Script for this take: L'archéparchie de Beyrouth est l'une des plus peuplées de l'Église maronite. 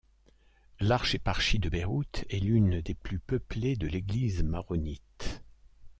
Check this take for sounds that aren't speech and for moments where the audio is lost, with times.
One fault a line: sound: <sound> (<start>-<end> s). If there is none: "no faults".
no faults